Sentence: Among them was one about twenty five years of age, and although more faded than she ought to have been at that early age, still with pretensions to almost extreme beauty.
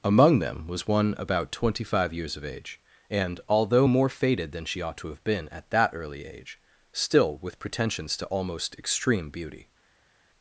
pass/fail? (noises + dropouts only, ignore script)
pass